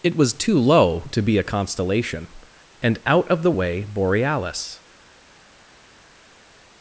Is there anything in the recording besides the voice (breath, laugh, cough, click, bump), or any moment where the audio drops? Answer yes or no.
no